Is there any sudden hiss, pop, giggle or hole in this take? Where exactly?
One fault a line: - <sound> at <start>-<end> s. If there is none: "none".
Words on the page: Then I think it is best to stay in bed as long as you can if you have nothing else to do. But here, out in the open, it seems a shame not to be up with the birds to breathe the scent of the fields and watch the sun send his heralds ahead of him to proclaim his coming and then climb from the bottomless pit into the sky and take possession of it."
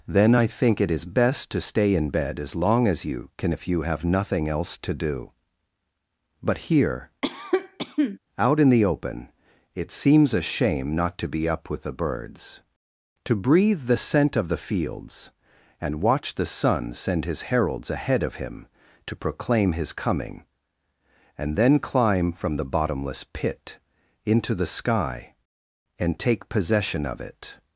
- cough at 7.2-8.2 s